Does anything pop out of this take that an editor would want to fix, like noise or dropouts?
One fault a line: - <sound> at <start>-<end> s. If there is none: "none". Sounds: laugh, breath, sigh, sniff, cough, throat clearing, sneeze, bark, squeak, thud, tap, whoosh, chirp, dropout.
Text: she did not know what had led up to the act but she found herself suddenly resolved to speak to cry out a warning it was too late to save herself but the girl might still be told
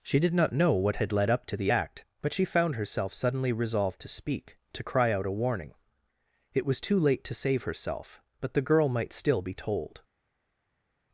none